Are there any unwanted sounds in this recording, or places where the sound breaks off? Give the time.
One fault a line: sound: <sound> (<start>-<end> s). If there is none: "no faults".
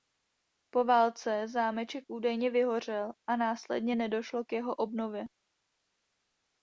no faults